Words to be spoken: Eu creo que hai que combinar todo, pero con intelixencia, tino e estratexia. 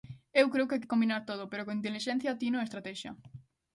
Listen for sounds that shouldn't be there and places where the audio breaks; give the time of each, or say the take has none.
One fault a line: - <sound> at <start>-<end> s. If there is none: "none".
none